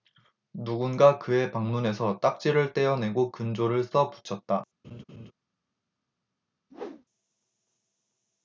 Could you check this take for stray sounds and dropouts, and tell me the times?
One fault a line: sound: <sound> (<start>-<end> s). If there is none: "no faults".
sound: laugh (4.8-5.3 s)
sound: whoosh (6.7-7.0 s)